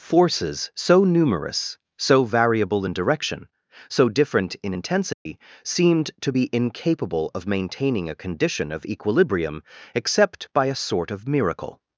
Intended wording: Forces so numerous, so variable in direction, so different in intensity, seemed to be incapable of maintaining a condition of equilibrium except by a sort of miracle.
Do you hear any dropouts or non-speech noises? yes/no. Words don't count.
yes